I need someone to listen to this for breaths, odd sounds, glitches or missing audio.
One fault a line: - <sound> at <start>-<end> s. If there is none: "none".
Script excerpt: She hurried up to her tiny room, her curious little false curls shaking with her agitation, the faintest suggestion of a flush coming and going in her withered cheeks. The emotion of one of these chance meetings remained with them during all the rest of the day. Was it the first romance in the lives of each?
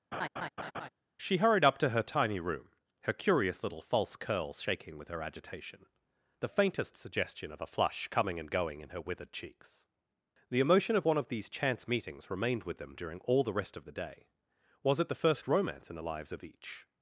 - laugh at 0.1-0.9 s